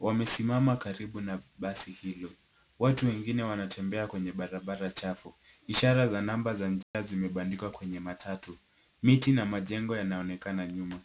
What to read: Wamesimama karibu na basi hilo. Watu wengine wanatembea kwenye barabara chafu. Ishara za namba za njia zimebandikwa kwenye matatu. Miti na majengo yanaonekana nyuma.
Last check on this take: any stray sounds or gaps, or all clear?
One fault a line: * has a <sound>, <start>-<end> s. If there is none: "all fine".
* has a dropout, 6.8-6.9 s